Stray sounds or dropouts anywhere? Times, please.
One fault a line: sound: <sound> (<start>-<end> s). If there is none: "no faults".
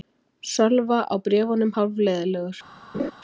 sound: laugh (2.9-3.1 s)